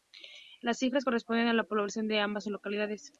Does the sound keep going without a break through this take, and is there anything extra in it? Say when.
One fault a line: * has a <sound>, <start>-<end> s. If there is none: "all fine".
all fine